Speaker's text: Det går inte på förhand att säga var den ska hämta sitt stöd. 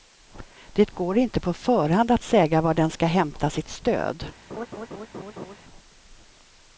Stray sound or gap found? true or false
true